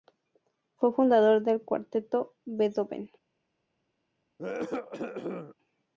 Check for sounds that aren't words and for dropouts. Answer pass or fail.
fail